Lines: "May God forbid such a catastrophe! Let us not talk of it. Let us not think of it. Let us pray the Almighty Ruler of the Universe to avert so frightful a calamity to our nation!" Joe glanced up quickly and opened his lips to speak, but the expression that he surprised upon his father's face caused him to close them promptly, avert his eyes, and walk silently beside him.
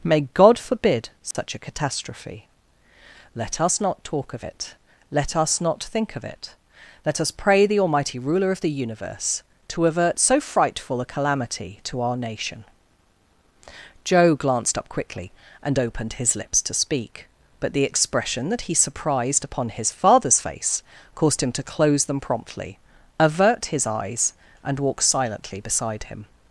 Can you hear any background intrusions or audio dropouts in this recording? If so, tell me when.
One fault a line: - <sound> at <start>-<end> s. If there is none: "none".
- dropout at 1.3-1.3 s